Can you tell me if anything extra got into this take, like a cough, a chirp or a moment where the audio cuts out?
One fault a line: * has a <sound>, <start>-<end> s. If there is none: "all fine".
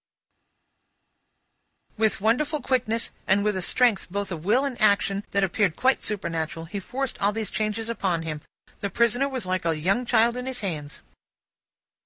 all fine